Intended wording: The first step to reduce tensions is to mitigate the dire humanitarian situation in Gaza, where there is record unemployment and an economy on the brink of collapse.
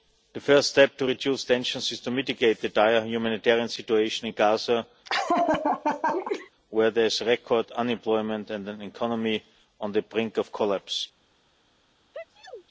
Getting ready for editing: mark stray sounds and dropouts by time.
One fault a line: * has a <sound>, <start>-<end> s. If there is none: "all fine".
* has a laugh, 5.0-6.5 s
* has a sneeze, 12.1-12.6 s